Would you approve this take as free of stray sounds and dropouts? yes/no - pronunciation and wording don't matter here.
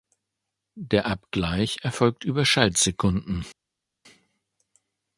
yes